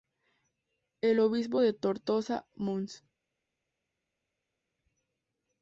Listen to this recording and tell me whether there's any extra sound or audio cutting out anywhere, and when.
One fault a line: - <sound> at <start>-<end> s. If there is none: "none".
none